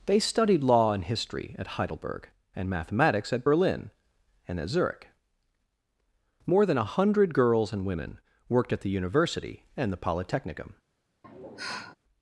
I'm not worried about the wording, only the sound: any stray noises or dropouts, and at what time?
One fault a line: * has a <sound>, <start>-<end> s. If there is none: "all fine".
* has a sigh, 11.2-12.0 s